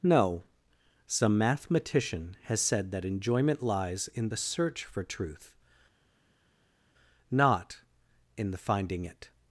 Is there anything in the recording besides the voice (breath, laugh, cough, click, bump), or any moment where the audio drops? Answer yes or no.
no